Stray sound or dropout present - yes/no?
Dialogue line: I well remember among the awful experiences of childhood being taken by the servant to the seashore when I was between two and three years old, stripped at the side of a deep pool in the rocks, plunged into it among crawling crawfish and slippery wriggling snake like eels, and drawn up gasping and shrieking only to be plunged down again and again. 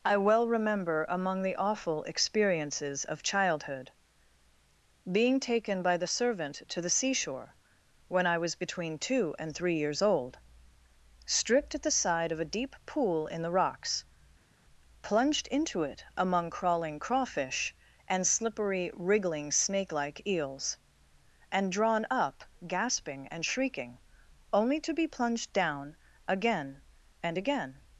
no